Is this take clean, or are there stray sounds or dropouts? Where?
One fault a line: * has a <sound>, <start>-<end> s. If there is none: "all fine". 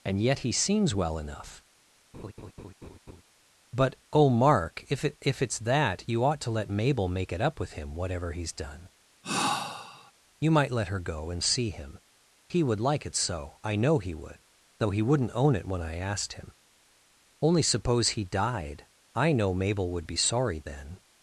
* has a laugh, 2.1-3.2 s
* has a sigh, 9.2-10.1 s